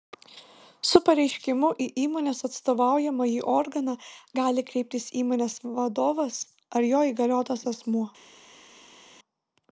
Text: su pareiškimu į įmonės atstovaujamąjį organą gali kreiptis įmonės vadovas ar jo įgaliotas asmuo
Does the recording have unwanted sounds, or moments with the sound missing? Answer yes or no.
no